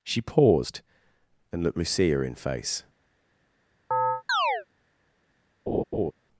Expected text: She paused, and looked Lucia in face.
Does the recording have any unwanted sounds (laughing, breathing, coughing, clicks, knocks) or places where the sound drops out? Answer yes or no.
yes